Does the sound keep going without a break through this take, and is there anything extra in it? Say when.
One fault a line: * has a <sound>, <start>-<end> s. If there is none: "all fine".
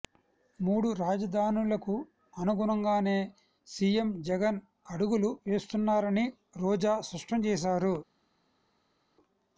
all fine